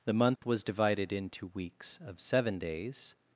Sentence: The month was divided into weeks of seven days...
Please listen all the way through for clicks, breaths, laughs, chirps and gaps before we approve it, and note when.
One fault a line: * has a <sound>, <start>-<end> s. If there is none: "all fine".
* has a dropout, 0.4-0.4 s